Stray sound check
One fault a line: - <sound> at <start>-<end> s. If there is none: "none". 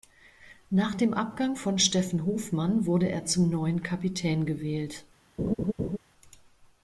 - laugh at 5.4-6.0 s